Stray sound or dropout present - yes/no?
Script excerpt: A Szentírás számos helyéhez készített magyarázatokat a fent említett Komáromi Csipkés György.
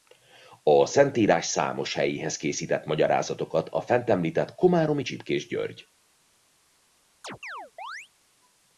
yes